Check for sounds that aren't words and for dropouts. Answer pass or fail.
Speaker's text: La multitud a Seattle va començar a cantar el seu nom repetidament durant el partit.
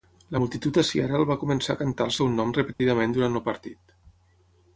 fail